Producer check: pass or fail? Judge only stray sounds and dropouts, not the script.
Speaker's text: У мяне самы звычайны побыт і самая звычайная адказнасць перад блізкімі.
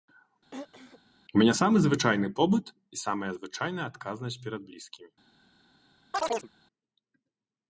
fail